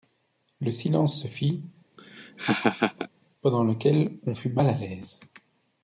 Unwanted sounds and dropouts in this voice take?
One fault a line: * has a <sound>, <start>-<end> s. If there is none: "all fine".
* has a laugh, 2.0-3.1 s